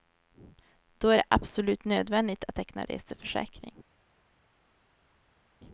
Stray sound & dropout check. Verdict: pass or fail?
pass